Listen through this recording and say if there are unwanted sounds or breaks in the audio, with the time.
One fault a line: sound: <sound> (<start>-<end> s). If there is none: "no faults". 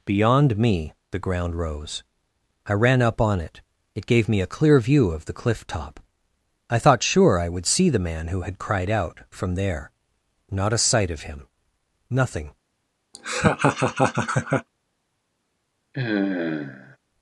sound: laugh (13.1-14.7 s)
sound: sigh (15.9-17.0 s)